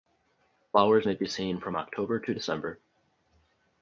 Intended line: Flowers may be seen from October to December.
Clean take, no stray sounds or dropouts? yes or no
yes